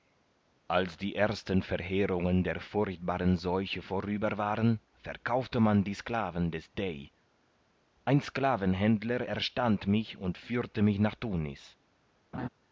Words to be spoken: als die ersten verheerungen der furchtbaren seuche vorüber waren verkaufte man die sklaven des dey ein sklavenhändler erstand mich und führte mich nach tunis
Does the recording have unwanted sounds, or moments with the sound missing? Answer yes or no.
yes